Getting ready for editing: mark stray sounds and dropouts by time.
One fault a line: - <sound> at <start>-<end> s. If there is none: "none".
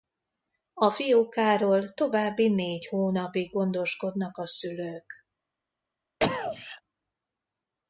- cough at 6.2-6.8 s